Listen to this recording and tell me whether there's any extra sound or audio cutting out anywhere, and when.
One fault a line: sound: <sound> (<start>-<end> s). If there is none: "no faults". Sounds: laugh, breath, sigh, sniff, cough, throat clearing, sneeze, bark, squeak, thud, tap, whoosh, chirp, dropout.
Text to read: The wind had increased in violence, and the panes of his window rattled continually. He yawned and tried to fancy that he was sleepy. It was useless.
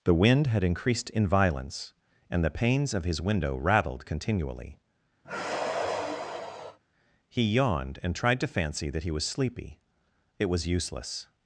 sound: sigh (5.2-6.8 s)